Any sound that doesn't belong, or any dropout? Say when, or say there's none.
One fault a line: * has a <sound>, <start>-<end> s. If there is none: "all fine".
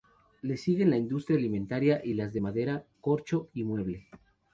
all fine